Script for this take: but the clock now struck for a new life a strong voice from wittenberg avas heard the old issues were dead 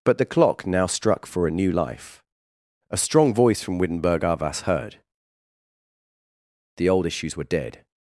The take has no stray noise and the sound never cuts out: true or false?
true